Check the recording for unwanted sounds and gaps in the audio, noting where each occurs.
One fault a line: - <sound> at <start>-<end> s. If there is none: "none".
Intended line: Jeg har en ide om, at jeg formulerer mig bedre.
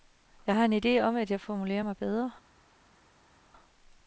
none